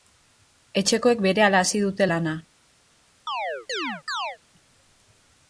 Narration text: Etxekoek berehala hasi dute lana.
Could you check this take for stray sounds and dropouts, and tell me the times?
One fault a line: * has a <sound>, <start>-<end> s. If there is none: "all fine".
* has a chirp, 3.3-4.4 s